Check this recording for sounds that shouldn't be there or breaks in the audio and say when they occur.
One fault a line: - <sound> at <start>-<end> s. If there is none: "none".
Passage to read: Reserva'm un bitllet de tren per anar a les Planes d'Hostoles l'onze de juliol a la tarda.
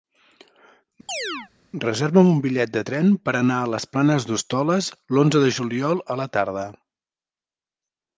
- chirp at 1.1-1.5 s